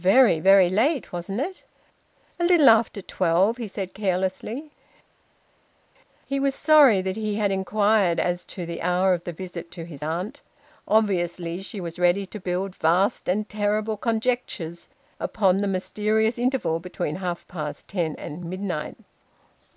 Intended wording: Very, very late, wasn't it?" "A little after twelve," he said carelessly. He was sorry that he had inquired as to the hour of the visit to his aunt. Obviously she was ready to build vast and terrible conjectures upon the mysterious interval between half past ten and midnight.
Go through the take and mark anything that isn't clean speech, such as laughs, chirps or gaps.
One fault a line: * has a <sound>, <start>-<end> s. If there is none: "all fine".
all fine